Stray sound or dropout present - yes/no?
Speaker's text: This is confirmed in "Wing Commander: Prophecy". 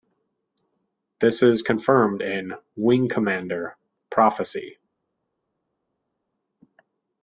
no